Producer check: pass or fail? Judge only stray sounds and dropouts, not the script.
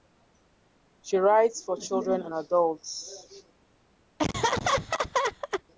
fail